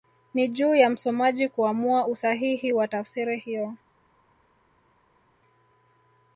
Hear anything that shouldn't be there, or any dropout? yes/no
no